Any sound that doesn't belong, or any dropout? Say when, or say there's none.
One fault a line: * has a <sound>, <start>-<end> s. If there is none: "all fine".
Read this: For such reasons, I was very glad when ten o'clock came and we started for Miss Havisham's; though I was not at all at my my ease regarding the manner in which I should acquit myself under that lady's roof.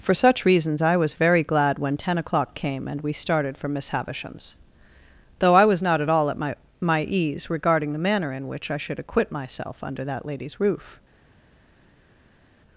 all fine